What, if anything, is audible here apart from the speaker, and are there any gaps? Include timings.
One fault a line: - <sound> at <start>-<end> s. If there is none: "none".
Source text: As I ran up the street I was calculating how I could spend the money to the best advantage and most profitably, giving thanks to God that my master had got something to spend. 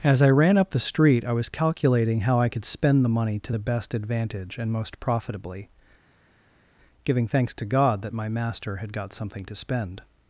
none